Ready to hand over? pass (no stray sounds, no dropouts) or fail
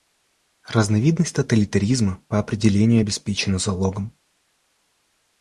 pass